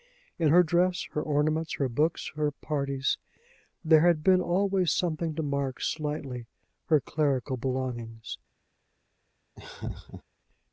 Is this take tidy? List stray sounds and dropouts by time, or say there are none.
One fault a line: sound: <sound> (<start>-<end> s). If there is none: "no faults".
sound: laugh (9.6-10.2 s)